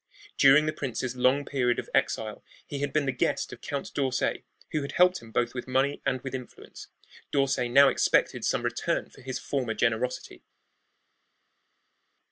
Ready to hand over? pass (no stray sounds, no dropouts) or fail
pass